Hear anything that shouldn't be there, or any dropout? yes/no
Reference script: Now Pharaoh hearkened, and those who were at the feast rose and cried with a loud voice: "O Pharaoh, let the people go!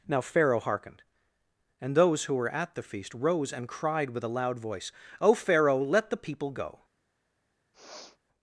yes